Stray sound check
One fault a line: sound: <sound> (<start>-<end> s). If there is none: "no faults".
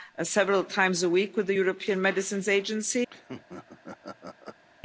sound: laugh (3.1-4.6 s)